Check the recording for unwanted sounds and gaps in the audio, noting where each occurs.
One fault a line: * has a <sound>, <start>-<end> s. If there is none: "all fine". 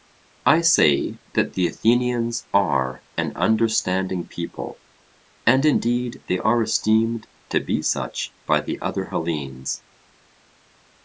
all fine